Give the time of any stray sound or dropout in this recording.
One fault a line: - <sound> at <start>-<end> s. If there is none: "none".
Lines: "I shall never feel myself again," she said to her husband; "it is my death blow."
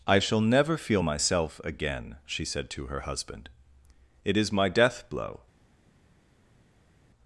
none